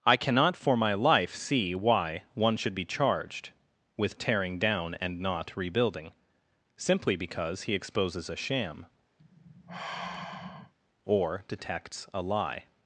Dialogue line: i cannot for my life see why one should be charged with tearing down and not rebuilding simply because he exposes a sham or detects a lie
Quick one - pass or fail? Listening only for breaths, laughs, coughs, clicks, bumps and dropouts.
fail